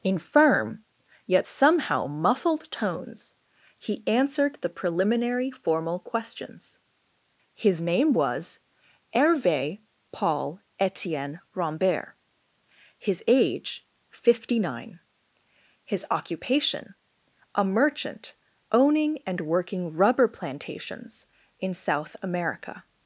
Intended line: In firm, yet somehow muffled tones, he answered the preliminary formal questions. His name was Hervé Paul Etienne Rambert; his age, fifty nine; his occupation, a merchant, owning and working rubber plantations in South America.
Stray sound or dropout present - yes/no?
no